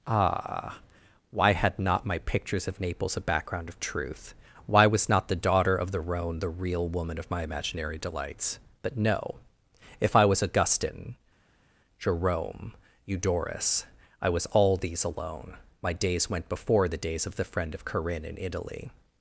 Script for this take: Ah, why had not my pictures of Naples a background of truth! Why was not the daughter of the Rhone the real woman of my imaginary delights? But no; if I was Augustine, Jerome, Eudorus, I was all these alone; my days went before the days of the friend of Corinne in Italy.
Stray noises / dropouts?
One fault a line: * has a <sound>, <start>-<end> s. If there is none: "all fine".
all fine